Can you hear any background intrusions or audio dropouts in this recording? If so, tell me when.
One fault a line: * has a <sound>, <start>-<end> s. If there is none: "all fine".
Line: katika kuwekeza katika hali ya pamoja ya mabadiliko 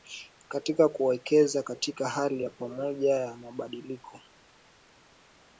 all fine